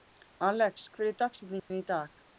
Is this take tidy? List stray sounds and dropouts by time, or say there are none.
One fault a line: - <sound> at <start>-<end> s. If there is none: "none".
- dropout at 1.6-1.7 s